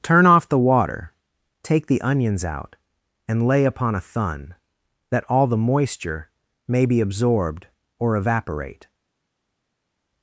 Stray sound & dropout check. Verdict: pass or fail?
pass